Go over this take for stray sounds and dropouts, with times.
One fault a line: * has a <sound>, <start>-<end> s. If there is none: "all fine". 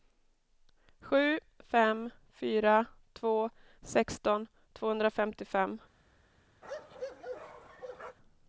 * has a bark, 6.6-8.2 s